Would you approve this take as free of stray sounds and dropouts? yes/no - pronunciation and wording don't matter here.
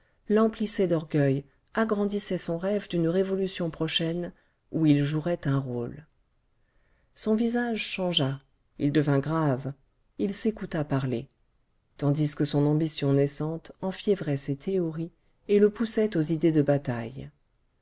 yes